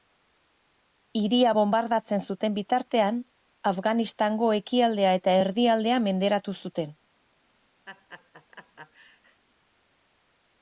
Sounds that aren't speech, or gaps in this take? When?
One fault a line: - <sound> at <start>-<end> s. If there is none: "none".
- laugh at 7.9-9.4 s